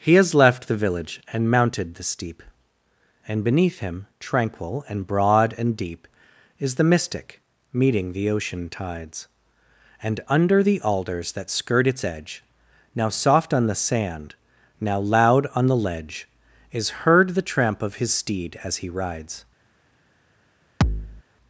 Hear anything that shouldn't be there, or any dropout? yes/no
yes